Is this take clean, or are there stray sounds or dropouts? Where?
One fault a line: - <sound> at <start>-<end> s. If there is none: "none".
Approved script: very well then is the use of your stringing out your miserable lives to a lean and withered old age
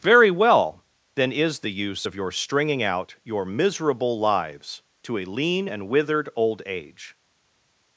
none